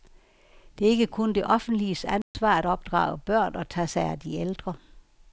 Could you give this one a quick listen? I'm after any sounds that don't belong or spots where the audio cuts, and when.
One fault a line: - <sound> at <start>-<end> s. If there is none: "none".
- dropout at 2.2-2.3 s